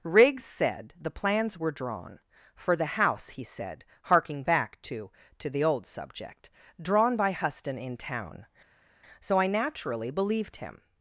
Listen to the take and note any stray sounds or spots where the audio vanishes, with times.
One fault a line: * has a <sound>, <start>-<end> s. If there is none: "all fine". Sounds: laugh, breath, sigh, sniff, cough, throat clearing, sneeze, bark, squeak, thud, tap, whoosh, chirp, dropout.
all fine